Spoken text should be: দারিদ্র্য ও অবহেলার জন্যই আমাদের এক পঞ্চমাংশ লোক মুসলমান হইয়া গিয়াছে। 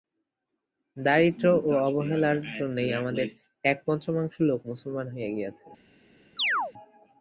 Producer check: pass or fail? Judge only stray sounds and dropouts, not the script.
fail